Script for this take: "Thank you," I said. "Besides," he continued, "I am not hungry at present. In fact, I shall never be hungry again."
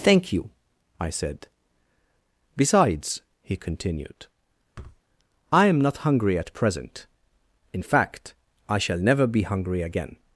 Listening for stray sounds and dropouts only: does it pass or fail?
fail